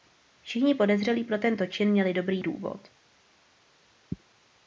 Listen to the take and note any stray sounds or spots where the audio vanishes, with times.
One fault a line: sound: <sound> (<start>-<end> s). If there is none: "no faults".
no faults